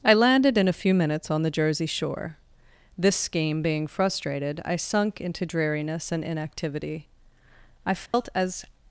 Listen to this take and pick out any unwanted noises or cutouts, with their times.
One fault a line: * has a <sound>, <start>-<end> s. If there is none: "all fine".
* has a dropout, 8.1-8.1 s